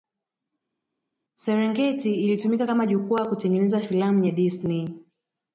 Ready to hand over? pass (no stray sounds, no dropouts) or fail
pass